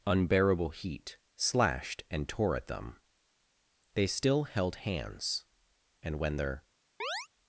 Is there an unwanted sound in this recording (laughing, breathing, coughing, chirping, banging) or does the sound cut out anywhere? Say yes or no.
yes